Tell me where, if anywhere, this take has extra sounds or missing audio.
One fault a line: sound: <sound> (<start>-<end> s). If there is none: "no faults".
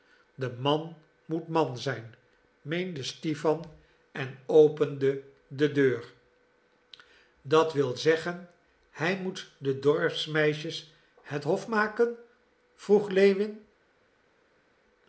no faults